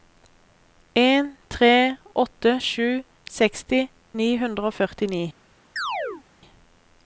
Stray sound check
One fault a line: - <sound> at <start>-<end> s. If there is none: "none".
- chirp at 5.8-6.2 s